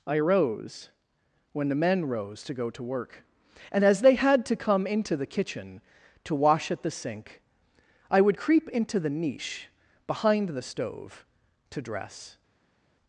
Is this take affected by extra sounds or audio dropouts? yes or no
no